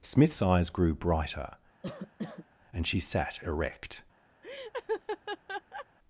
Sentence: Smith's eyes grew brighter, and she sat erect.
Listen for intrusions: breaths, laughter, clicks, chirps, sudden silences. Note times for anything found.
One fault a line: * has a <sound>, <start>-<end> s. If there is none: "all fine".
* has a cough, 1.8-2.5 s
* has a laugh, 4.4-5.9 s